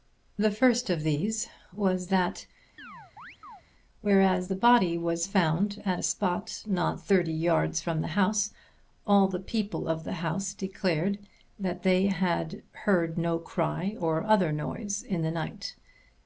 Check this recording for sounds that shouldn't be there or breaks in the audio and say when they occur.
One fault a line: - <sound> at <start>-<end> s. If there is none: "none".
- chirp at 2.8-3.6 s